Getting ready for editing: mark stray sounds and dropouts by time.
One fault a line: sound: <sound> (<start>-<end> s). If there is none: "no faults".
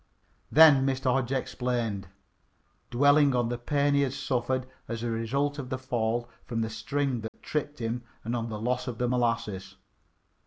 sound: dropout (7.3-7.3 s)